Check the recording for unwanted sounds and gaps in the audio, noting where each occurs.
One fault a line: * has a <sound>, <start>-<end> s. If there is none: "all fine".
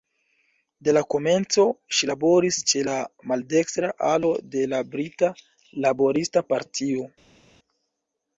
all fine